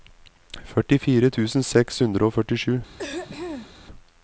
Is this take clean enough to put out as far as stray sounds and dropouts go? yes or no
no